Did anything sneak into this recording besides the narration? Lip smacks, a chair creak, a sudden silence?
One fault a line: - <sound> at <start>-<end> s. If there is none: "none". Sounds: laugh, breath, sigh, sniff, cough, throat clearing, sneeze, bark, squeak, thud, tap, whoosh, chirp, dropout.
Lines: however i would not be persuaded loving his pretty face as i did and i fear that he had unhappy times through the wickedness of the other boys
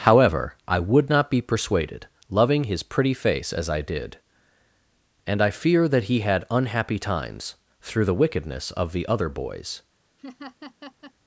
- laugh at 10.2-11.1 s